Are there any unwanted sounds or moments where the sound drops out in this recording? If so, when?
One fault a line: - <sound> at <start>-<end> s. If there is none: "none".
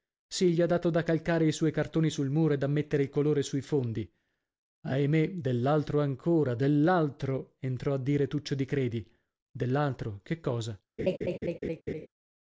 - laugh at 11.0-12.1 s